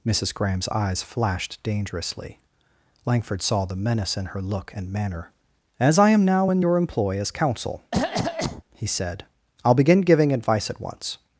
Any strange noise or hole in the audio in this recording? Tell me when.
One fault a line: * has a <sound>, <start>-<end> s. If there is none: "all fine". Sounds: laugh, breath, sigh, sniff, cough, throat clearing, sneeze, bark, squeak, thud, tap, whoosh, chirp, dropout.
* has a cough, 7.9-8.6 s